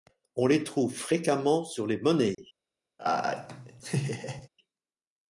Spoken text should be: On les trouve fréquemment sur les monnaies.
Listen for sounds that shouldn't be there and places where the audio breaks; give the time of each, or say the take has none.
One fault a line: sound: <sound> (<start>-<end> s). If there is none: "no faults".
sound: dropout (2.3-2.4 s)
sound: laugh (3.0-4.5 s)